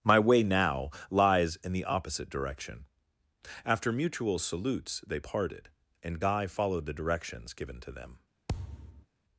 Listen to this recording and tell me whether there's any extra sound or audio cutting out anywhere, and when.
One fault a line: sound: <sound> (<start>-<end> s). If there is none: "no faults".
sound: thud (8.5-9.1 s)